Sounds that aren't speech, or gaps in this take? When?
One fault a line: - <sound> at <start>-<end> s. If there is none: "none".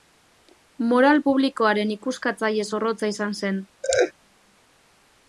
- laugh at 3.8-4.1 s